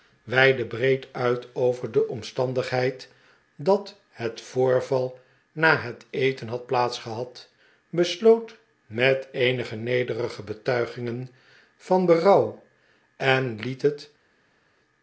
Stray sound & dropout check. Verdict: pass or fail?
pass